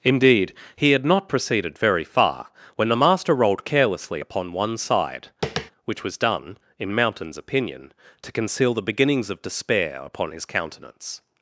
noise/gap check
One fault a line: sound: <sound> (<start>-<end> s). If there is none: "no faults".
sound: tap (5.4-5.7 s)